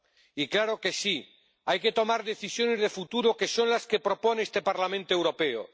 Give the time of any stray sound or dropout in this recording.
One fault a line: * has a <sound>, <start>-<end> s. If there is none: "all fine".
all fine